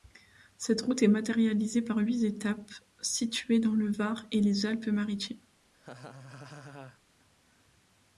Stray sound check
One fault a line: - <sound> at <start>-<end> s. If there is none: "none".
- laugh at 5.7-7.0 s